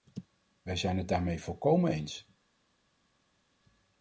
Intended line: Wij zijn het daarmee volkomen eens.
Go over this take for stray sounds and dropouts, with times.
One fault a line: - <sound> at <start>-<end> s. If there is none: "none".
none